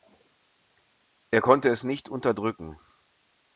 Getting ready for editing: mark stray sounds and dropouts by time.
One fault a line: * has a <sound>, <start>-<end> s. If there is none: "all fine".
all fine